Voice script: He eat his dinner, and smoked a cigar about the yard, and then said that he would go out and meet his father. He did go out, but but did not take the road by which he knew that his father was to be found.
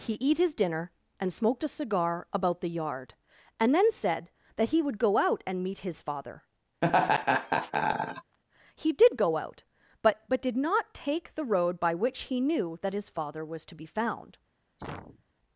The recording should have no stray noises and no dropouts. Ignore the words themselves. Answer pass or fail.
fail